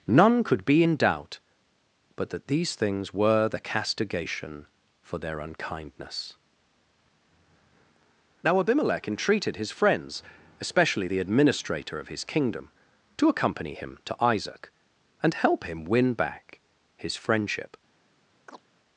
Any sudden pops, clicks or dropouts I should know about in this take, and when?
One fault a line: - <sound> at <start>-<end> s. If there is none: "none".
- chirp at 18.5-18.6 s